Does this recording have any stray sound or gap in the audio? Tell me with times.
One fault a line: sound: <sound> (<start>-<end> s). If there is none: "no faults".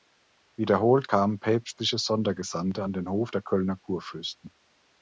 no faults